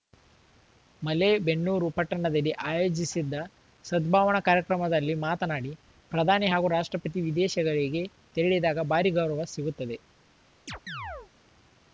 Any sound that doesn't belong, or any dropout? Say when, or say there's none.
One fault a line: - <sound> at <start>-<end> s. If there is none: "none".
- chirp at 10.7-11.3 s